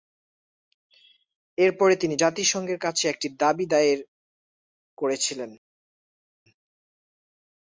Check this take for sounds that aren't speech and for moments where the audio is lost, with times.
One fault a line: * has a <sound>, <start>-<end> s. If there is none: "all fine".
all fine